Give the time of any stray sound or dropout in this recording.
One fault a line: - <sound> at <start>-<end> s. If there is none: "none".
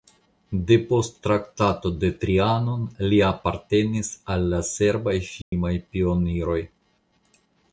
- dropout at 5.4-5.5 s